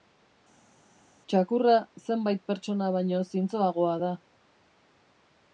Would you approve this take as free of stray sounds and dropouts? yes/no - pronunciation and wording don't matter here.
yes